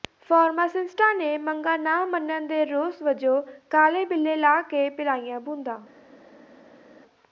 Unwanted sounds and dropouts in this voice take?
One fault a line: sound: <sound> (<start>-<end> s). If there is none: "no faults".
no faults